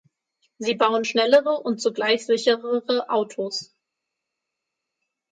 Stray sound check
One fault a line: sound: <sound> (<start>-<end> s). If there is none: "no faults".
no faults